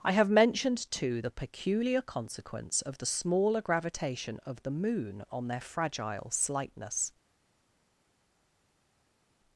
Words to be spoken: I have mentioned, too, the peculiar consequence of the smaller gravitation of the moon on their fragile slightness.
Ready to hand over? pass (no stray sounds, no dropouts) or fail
pass